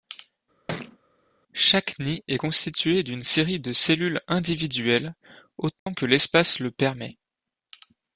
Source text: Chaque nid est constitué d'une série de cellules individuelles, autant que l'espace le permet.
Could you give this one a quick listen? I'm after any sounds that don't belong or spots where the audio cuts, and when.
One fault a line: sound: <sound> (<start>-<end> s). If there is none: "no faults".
sound: thud (0.7-1.0 s)
sound: dropout (5.8-5.9 s)